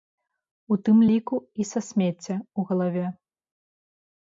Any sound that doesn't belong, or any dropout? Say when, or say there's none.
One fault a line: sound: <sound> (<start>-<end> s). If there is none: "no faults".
no faults